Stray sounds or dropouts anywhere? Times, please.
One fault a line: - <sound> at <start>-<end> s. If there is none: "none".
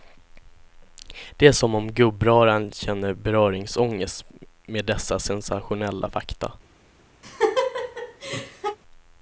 - laugh at 7.2-8.8 s